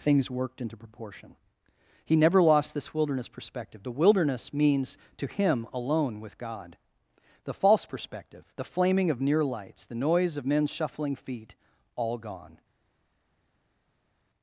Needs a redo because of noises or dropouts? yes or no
no